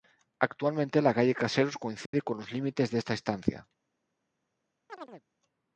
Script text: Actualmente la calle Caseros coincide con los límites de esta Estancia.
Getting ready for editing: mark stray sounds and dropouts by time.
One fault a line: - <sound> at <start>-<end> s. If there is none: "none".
- dropout at 2.1-2.1 s
- chirp at 4.9-5.2 s